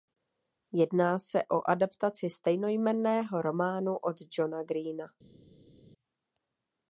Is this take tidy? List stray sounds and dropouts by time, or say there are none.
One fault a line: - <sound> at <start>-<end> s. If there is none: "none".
none